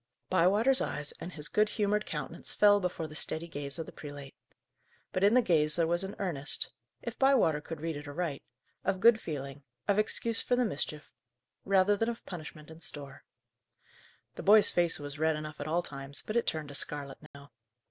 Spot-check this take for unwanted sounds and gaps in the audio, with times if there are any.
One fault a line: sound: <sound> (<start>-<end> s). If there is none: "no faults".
sound: dropout (17.3-17.3 s)